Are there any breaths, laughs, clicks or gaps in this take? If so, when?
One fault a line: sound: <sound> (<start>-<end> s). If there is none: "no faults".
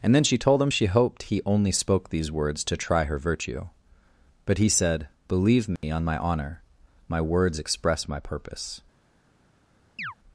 sound: dropout (5.8-5.8 s)
sound: chirp (10.0-10.1 s)